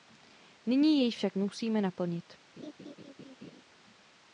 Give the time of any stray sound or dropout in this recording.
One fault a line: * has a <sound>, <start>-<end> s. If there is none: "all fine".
* has a laugh, 2.6-3.6 s